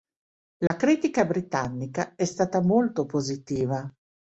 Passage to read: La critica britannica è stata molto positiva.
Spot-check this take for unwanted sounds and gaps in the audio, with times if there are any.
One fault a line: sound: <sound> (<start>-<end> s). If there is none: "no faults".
sound: dropout (0.7-0.7 s)